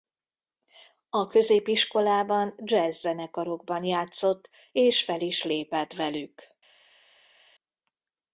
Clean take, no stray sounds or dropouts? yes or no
yes